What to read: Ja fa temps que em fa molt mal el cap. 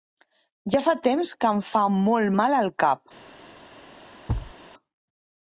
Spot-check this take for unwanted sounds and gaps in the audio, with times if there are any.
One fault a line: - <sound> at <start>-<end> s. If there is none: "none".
- thud at 4.3-4.5 s